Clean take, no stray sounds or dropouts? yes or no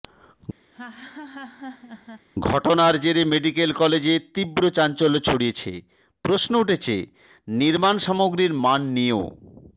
no